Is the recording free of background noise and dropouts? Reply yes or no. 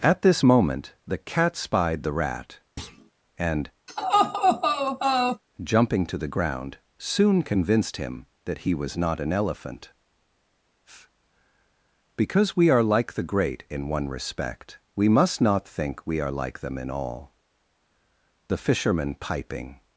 no